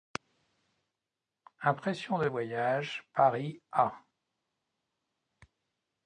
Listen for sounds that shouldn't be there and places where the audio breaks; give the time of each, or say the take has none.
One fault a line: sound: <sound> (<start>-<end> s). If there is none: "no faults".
no faults